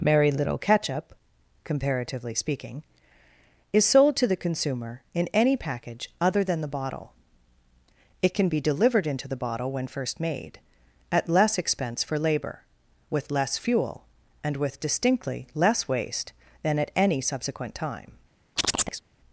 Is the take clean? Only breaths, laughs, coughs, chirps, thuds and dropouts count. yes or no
no